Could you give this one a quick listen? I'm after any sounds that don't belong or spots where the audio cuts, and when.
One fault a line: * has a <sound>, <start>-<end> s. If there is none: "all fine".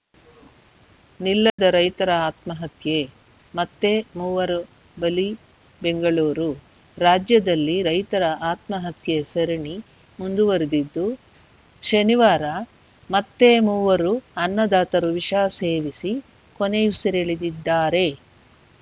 * has a dropout, 1.5-1.6 s